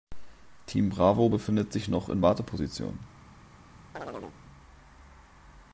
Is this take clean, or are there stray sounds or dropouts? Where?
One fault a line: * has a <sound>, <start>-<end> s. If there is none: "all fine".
* has a chirp, 3.9-4.4 s